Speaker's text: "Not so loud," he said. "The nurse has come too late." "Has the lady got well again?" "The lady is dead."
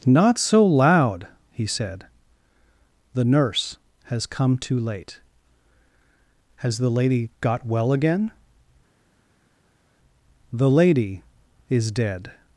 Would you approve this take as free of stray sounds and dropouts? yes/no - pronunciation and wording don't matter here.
yes